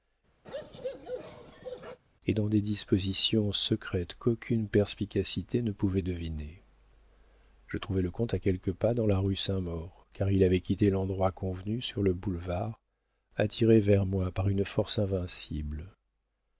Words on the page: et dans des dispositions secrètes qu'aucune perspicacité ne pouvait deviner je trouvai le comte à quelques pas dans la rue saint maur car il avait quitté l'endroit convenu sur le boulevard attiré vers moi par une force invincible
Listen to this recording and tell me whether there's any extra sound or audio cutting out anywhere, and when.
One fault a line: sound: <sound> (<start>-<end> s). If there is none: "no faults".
sound: bark (0.4-2.0 s)